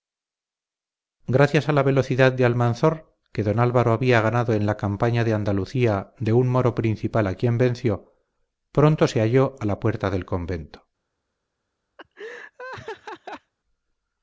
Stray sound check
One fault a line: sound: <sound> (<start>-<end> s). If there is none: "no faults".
sound: laugh (12.0-13.5 s)